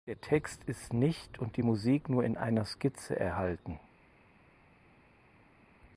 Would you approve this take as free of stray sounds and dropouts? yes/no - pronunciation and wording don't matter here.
yes